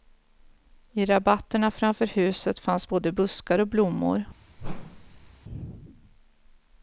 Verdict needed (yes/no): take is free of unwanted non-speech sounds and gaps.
no